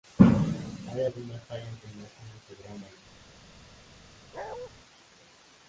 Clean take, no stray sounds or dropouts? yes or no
no